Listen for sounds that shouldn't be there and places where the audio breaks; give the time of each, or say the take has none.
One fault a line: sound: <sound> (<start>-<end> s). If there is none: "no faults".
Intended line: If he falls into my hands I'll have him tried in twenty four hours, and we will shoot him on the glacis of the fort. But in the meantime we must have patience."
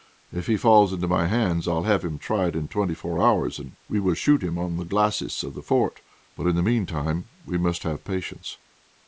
no faults